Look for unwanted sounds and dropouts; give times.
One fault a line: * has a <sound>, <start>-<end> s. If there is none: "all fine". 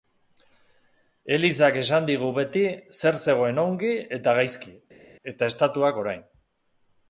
all fine